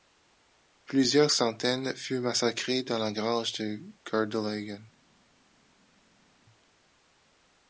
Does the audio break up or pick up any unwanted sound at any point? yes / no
no